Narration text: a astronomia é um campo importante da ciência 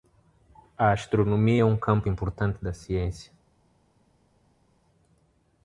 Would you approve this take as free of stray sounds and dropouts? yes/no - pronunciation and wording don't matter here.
yes